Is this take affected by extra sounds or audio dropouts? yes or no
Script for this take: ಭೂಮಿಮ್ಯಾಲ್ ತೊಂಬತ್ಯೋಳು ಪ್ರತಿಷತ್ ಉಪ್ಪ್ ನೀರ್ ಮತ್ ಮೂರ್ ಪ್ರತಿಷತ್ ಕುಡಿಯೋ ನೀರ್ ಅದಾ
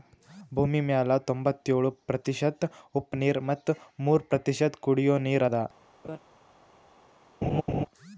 yes